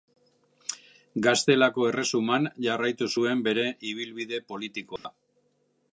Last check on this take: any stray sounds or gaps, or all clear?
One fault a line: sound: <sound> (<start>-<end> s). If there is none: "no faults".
sound: dropout (5.0-5.0 s)